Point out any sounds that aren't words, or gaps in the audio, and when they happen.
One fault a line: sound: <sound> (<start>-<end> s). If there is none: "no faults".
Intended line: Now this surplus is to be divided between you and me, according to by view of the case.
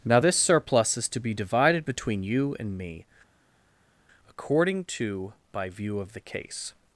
no faults